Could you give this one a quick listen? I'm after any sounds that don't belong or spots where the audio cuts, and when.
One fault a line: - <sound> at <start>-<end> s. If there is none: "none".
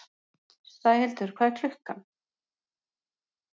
none